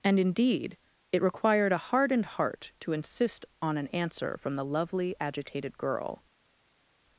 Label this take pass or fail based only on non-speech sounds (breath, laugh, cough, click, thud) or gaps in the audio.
pass